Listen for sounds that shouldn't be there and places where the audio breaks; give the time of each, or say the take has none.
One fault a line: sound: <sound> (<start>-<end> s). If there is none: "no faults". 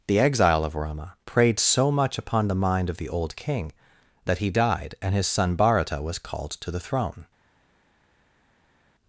no faults